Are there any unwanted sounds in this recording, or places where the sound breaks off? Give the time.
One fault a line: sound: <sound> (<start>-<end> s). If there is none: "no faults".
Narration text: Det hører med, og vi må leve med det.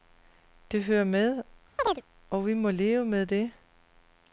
sound: chirp (1.8-2.0 s)